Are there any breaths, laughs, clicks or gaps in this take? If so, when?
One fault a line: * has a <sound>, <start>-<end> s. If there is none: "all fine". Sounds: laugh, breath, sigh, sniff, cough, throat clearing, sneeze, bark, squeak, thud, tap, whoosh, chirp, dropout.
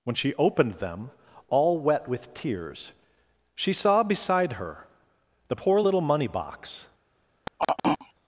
* has a throat clearing, 7.5-8.1 s